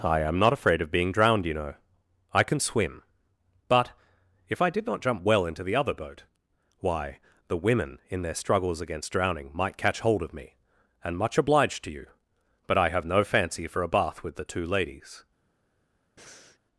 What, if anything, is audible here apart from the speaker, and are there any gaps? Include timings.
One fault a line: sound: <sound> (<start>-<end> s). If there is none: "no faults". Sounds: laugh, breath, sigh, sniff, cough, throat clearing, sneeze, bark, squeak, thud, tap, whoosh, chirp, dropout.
sound: breath (16.2-16.6 s)